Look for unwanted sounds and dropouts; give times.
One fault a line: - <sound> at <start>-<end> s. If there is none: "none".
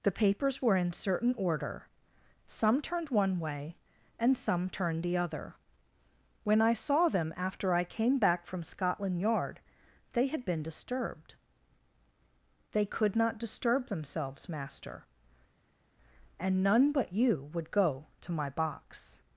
none